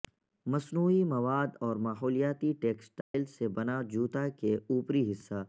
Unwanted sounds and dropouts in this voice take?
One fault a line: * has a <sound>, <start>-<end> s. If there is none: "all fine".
* has a dropout, 3.0-3.1 s